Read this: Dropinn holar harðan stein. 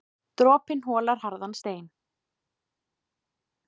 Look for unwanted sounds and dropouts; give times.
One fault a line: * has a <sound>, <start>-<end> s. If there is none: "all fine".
all fine